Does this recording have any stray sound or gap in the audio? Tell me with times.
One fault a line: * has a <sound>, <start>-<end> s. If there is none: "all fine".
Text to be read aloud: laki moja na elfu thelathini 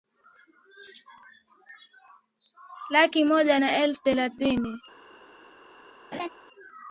* has a laugh, 6.1-6.3 s